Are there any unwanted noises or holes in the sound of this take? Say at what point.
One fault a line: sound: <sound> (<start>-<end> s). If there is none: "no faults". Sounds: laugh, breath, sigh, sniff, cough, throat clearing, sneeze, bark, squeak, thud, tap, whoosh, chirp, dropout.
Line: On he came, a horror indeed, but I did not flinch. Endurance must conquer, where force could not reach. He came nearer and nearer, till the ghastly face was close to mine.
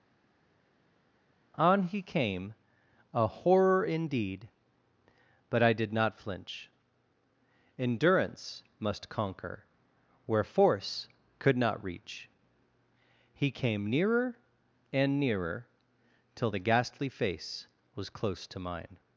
no faults